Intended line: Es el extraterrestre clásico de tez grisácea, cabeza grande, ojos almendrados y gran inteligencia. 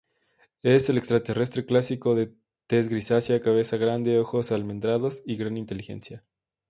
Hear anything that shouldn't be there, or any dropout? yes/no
no